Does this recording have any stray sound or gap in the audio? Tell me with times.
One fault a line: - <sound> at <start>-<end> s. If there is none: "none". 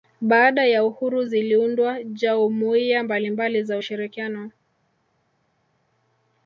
none